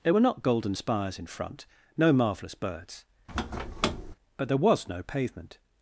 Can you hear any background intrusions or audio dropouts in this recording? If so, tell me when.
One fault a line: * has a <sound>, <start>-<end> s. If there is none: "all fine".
* has a squeak, 3.3-4.2 s